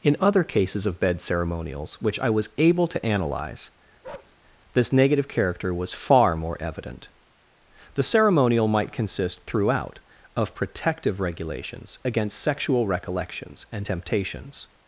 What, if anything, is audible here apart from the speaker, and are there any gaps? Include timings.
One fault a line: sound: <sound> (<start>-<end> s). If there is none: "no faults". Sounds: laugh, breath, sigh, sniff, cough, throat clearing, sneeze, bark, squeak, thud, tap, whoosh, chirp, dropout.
sound: bark (4.0-4.4 s)